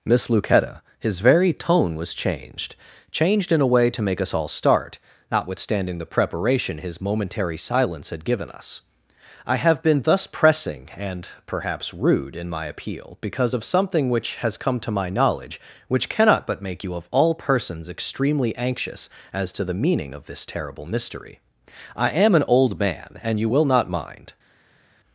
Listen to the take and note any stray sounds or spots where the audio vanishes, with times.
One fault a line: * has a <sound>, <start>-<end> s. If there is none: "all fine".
all fine